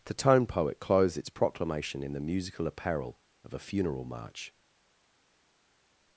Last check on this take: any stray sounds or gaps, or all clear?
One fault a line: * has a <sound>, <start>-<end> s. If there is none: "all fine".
all fine